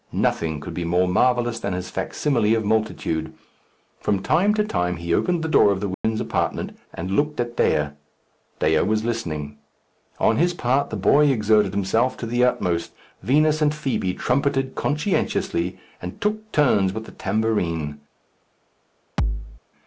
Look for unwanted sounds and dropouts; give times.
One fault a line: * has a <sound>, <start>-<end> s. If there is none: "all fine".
* has a dropout, 5.9-6.0 s
* has a thud, 19.2-19.6 s